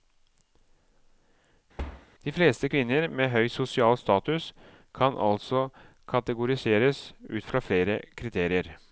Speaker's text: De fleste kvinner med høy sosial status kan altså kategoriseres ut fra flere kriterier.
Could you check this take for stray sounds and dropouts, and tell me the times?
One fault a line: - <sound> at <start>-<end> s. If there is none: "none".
- thud at 1.8-2.1 s